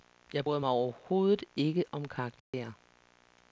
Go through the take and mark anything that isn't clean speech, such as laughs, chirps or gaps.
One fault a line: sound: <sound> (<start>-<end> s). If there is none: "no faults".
sound: dropout (2.4-2.5 s)